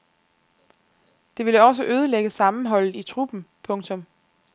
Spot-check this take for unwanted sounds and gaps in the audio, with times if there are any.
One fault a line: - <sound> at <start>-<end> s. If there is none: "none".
none